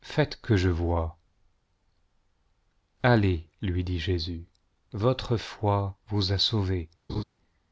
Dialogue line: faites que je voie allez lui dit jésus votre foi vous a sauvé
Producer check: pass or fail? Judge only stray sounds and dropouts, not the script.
fail